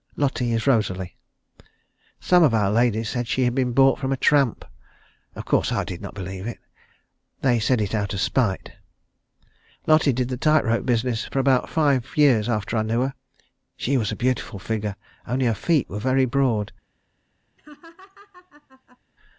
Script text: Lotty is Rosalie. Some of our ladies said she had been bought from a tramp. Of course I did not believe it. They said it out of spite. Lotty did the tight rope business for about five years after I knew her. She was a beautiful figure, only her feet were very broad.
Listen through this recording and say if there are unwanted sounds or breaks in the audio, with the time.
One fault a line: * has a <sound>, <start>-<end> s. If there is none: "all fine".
* has a laugh, 17.6-19.0 s